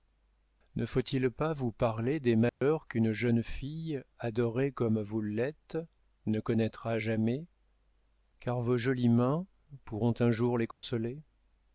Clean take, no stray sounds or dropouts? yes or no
no